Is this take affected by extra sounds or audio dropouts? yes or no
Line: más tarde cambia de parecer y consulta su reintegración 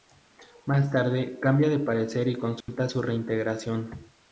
yes